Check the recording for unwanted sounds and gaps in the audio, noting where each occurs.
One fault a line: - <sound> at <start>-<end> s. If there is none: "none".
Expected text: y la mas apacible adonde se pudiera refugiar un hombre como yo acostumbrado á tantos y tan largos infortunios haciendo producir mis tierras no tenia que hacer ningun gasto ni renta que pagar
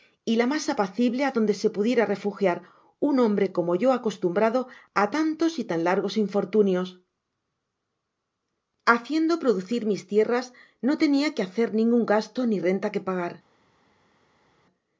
none